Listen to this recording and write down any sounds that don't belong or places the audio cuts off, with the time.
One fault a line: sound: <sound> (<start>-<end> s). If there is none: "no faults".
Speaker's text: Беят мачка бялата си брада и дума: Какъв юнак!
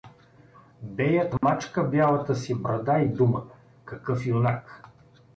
sound: dropout (1.4-1.4 s)